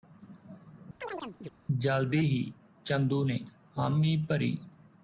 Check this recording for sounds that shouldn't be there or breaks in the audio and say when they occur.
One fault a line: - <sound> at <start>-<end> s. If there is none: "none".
- chirp at 1.0-1.5 s